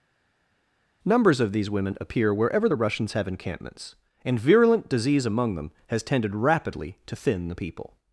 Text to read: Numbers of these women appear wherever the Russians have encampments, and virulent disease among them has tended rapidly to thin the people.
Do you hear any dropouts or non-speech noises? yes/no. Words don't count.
no